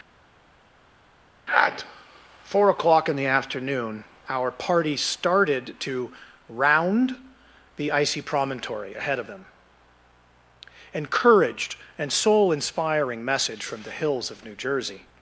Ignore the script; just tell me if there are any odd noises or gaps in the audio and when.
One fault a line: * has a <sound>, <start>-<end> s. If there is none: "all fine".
all fine